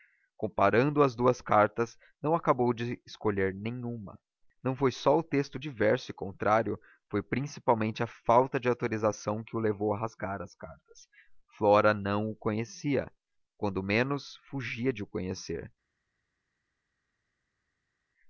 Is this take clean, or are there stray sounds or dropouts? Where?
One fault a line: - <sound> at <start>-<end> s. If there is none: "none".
none